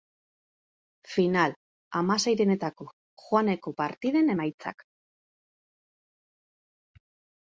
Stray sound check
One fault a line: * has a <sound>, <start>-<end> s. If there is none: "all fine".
all fine